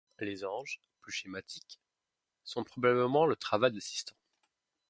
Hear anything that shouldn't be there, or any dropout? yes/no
no